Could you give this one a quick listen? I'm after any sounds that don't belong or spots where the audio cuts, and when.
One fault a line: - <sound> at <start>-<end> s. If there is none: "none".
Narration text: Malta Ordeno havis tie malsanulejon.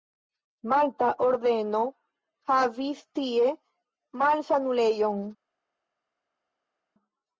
none